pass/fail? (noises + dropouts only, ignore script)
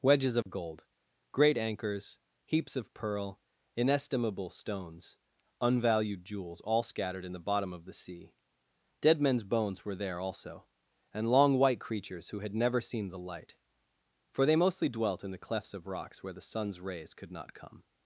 fail